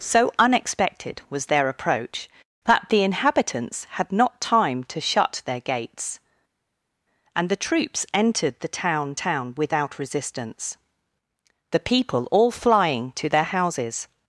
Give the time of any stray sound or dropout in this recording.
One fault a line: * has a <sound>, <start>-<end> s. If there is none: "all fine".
all fine